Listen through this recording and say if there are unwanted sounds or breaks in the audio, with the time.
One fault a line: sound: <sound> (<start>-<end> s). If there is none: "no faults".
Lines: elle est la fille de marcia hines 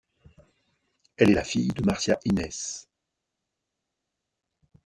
no faults